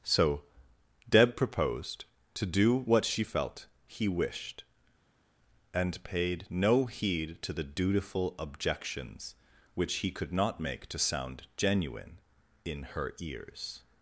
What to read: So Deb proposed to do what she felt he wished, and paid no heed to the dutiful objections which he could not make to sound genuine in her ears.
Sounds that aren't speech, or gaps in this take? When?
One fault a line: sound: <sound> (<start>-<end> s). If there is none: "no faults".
no faults